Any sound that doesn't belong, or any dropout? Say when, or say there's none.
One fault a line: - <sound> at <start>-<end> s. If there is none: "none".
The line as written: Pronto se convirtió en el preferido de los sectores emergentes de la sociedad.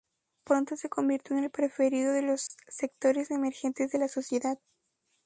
- dropout at 2.5-2.5 s